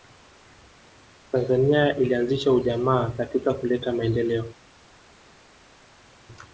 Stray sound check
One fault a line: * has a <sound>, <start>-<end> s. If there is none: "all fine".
all fine